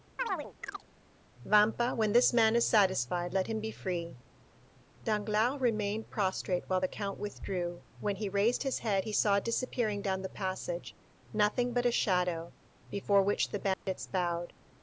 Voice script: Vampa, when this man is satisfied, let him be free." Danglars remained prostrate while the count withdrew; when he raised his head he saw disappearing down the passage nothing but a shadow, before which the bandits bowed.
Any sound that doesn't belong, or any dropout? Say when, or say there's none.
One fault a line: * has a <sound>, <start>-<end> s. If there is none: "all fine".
* has a chirp, 0.2-0.9 s
* has a dropout, 13.7-13.9 s